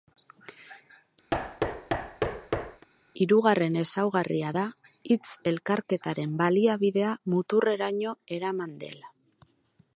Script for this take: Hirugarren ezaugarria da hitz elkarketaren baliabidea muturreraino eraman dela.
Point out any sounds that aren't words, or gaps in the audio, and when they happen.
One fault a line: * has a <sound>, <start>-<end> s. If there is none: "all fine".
* has a thud, 1.3-2.9 s